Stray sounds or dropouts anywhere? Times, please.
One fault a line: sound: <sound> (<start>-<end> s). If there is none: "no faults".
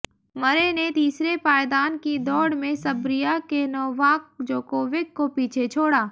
no faults